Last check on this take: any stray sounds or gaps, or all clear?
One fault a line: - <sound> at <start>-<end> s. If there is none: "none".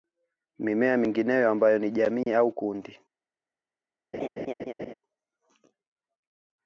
- dropout at 2.2-2.3 s
- laugh at 4.1-4.9 s